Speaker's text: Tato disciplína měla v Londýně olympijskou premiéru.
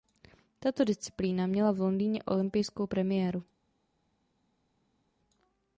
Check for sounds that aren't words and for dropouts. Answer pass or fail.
pass